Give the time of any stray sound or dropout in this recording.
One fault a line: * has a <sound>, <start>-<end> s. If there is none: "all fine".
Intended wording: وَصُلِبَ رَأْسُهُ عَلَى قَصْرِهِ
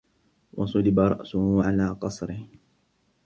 all fine